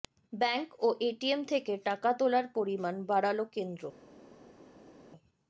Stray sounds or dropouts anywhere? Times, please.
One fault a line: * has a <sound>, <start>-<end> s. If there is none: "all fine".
all fine